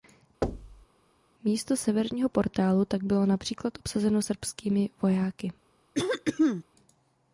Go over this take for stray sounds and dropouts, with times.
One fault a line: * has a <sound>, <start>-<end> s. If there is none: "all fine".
* has a thud, 0.4-0.9 s
* has a throat clearing, 5.9-6.6 s